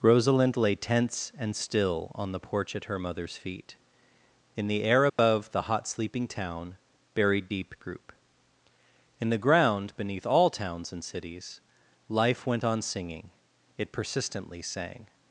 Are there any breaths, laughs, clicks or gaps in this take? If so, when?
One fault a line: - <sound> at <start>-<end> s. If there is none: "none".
- dropout at 5.1-5.2 s